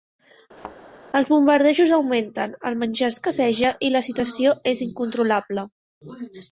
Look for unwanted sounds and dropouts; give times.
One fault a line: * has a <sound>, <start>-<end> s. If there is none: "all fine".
* has a thud, 0.6-0.8 s